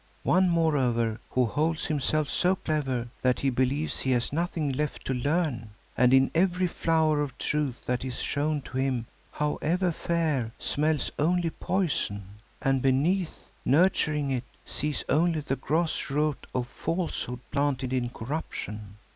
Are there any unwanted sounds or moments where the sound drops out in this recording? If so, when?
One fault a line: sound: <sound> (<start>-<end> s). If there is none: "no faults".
no faults